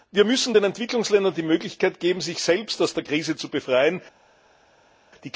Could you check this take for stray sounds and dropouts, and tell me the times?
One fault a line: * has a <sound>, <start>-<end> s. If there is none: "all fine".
all fine